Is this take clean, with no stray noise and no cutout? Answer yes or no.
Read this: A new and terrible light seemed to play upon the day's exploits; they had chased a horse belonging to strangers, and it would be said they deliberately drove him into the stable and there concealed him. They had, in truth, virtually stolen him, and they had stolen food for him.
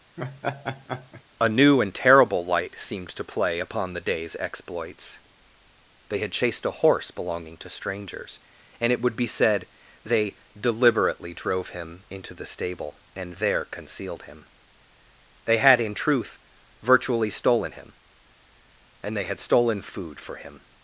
no